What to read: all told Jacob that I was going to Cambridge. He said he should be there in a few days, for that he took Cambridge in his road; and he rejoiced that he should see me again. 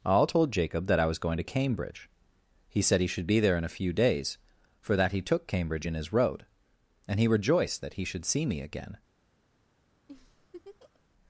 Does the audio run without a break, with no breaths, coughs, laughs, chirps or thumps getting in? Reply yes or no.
no